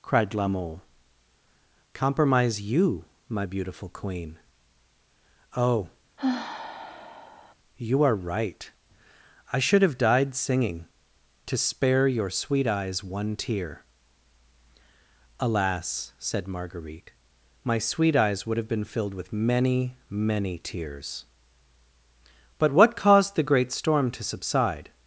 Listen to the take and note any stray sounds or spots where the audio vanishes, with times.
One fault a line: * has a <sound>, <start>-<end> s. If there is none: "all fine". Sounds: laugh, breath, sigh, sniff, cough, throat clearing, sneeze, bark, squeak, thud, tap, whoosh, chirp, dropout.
* has a sigh, 6.2-7.5 s